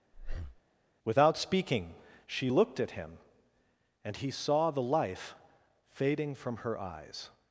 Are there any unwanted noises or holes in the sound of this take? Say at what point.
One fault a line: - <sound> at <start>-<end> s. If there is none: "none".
- breath at 0.1-0.6 s